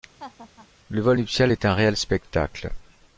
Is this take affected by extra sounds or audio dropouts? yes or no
yes